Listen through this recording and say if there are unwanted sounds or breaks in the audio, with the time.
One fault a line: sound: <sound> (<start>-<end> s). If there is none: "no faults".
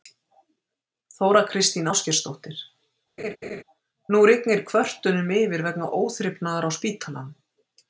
sound: laugh (3.2-3.6 s)